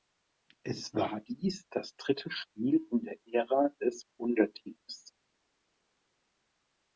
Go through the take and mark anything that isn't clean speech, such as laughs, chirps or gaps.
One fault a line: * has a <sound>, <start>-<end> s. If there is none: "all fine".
all fine